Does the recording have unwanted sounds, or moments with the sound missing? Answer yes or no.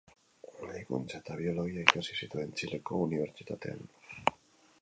no